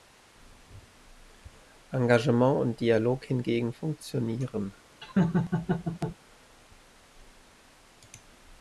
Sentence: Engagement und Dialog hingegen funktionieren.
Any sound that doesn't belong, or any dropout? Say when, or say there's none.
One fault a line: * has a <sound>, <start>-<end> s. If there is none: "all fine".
* has a laugh, 5.0-6.2 s